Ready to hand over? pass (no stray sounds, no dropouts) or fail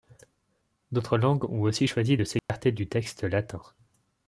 fail